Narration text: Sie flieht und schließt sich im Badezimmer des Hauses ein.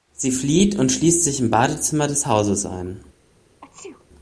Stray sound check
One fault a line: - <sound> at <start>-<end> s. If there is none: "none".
- sneeze at 3.6-4.1 s